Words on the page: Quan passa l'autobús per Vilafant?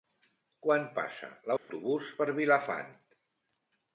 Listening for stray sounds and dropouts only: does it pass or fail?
fail